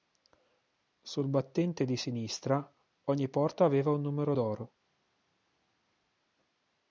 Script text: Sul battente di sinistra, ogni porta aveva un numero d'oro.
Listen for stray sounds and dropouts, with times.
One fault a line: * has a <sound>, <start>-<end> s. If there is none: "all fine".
all fine